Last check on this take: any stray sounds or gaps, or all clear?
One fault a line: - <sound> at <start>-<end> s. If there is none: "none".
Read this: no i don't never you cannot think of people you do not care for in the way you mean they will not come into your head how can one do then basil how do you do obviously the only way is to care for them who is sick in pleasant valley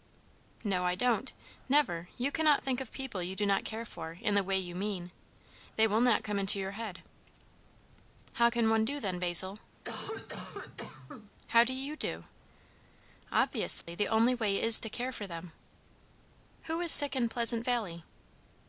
- cough at 9.8-11.3 s
- dropout at 13.8-13.9 s